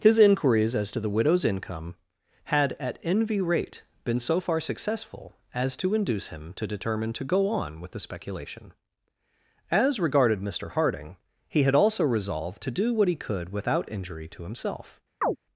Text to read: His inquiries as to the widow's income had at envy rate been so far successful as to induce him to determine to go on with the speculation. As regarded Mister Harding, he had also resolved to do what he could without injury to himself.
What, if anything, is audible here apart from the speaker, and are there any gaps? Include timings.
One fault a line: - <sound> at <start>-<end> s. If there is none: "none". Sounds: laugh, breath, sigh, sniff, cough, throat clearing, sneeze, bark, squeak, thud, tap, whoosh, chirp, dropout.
- chirp at 15.2-15.4 s